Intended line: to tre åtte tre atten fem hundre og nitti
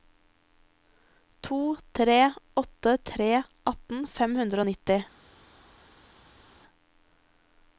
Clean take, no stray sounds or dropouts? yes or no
yes